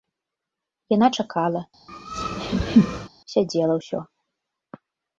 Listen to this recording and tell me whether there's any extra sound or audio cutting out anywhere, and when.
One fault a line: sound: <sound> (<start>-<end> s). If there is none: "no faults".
sound: laugh (1.9-3.1 s)